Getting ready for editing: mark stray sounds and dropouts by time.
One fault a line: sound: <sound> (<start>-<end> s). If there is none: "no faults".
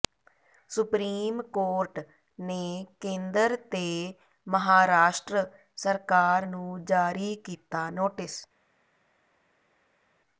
no faults